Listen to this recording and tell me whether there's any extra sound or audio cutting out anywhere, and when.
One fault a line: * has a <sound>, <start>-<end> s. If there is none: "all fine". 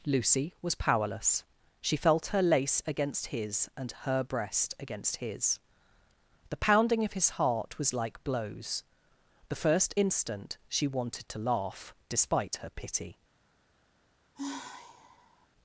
* has a sigh, 14.3-15.5 s